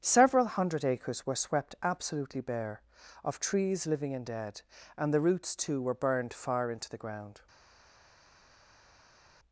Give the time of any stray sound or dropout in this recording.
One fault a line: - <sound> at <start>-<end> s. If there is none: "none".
none